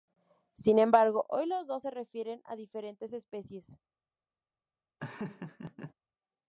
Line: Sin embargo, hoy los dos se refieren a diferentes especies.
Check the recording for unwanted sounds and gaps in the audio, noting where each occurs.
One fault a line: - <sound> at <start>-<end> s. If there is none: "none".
- laugh at 5.0-5.9 s